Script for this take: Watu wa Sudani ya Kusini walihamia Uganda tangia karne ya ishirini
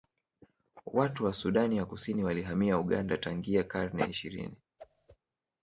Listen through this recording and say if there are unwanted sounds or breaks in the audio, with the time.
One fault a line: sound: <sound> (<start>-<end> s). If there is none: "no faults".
sound: whoosh (4.8-5.2 s)